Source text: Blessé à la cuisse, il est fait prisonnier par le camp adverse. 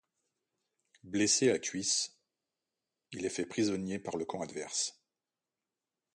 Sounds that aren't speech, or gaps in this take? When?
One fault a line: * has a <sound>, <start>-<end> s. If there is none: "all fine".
all fine